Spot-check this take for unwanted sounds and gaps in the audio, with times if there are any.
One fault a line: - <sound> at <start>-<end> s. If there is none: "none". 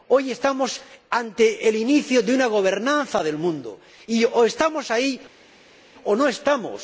none